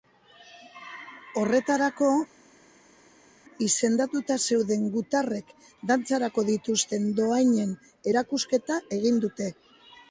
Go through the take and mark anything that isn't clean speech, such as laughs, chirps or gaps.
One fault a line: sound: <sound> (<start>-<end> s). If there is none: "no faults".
no faults